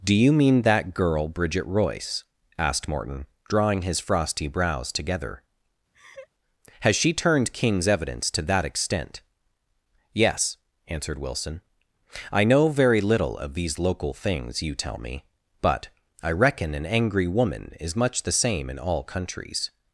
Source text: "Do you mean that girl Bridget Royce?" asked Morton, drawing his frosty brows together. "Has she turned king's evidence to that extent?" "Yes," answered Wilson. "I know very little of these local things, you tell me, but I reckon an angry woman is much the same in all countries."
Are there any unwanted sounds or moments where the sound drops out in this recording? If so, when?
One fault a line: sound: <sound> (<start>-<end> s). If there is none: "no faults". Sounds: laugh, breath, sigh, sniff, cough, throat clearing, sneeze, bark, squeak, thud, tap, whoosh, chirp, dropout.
sound: laugh (5.9-6.3 s)